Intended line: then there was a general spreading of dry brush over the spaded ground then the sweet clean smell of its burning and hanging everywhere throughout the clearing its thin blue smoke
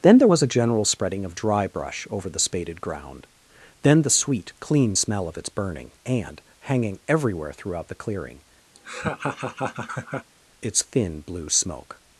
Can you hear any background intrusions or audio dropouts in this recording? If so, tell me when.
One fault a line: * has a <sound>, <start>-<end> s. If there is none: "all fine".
* has a laugh, 8.7-10.3 s